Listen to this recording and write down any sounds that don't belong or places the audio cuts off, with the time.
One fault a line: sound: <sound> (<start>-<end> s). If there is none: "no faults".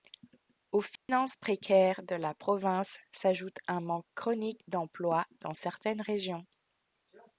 sound: dropout (1.0-1.1 s)